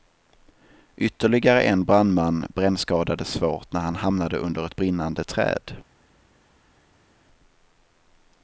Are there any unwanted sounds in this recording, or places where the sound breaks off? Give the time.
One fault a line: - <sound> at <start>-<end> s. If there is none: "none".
none